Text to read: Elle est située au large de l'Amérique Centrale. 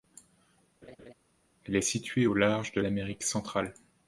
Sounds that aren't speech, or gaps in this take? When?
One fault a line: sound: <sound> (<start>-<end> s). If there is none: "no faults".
sound: laugh (0.8-1.1 s)